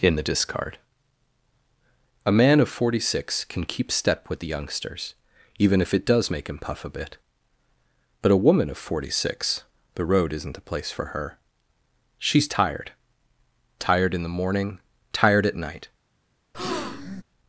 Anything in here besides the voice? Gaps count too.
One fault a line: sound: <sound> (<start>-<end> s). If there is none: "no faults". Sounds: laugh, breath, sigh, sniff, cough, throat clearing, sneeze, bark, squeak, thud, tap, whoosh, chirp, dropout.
sound: breath (16.5-17.2 s)